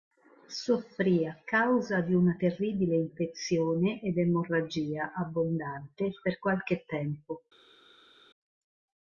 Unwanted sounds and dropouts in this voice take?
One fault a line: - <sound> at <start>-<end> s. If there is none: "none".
none